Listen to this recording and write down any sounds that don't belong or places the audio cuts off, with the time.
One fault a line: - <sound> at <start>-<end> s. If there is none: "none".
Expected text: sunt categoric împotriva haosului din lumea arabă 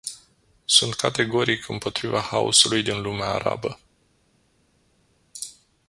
none